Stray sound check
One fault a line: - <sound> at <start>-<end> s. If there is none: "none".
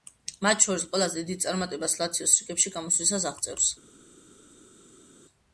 none